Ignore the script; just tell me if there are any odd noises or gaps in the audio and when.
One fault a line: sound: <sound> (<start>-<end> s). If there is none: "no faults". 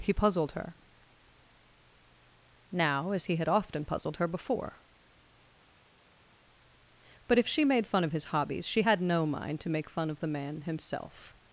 no faults